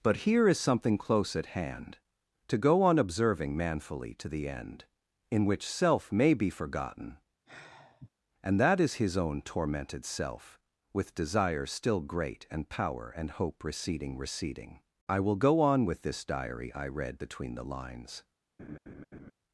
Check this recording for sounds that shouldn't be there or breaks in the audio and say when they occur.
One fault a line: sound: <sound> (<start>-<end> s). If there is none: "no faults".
sound: sigh (7.5-8.1 s)
sound: laugh (18.6-19.3 s)